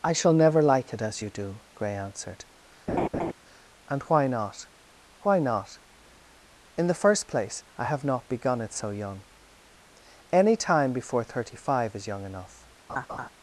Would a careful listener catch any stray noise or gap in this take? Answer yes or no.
yes